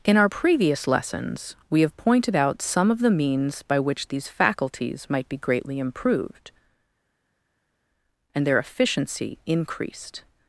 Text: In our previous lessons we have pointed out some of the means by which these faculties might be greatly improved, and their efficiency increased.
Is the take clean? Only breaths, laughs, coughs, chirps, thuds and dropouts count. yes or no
yes